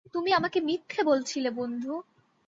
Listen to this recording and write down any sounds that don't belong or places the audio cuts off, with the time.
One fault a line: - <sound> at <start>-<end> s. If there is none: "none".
none